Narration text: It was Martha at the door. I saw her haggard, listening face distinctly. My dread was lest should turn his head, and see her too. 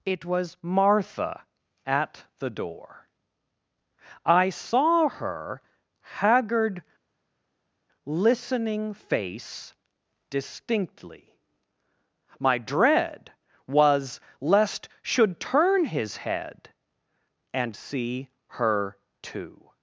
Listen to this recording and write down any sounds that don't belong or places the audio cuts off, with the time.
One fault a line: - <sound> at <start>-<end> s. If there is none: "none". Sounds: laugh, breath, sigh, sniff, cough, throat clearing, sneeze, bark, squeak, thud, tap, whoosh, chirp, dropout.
none